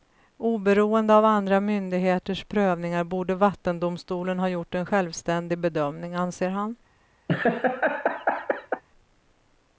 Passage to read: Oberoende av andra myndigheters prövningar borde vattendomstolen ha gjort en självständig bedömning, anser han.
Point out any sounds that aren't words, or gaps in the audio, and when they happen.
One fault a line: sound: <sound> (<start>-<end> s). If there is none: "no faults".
sound: laugh (7.3-8.8 s)